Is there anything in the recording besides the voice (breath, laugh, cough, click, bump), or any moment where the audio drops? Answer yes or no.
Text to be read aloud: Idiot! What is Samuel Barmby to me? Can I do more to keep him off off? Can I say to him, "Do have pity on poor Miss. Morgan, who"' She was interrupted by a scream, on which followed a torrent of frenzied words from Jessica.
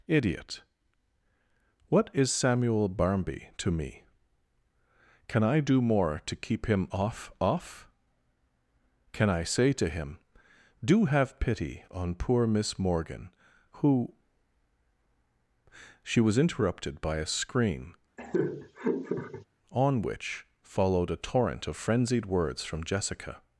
yes